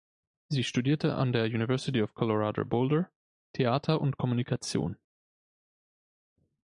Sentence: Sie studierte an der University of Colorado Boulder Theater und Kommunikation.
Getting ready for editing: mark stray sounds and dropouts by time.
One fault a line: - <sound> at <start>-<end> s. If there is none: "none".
none